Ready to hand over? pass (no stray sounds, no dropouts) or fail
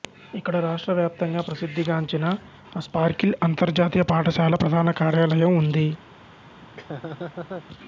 fail